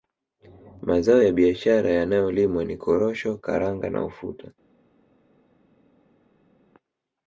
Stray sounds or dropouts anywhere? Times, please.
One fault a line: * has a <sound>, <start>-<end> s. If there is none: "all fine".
all fine